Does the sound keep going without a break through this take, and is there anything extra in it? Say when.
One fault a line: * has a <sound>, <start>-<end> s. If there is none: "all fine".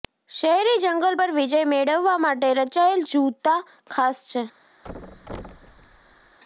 * has a thud, 4.8-6.4 s